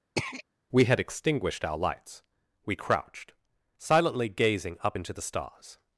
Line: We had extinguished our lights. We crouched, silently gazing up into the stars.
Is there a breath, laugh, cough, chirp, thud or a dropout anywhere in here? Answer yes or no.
yes